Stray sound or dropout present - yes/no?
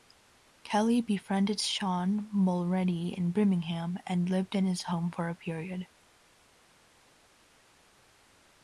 no